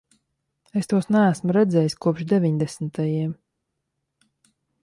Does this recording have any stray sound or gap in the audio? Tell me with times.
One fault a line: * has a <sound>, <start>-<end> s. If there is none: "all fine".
all fine